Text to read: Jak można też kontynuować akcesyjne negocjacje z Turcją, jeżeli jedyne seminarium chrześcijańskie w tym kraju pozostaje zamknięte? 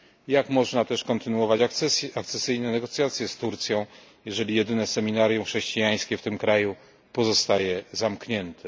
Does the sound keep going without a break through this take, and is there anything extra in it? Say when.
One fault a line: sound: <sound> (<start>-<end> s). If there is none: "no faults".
no faults